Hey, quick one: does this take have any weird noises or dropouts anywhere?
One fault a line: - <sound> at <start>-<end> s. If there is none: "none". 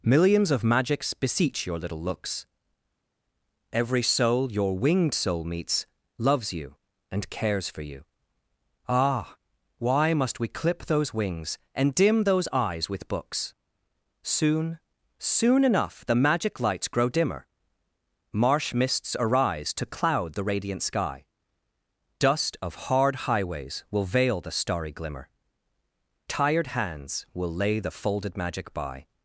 none